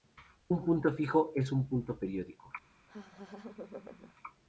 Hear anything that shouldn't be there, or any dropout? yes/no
yes